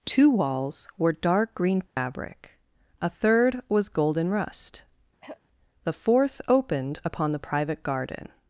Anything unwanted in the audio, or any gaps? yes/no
yes